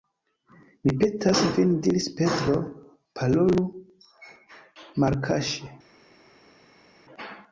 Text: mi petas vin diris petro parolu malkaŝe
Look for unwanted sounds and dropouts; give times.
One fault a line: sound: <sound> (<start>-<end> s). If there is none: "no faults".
no faults